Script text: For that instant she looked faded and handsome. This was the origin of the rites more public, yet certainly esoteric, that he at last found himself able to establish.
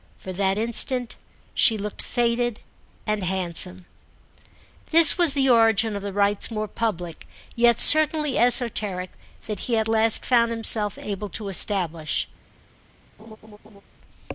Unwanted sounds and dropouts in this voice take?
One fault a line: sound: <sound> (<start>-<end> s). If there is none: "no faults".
sound: laugh (13.2-13.8 s)